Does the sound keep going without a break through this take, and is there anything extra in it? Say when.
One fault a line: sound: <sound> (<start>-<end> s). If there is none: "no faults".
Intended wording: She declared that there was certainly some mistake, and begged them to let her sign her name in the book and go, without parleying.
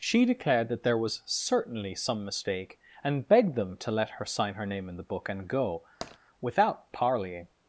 sound: tap (6.0-6.2 s)